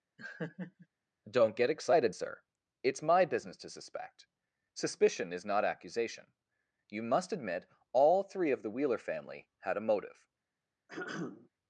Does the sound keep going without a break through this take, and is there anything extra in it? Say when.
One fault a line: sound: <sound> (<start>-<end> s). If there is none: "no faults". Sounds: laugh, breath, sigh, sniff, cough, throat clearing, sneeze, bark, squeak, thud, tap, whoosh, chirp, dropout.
sound: laugh (0.2-0.9 s)
sound: throat clearing (10.9-11.5 s)